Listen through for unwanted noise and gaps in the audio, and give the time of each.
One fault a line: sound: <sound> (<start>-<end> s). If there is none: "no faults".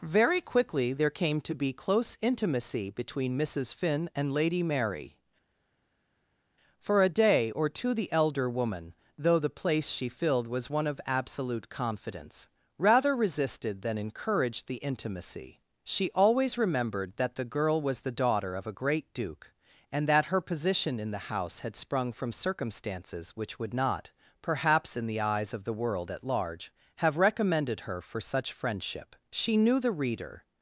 no faults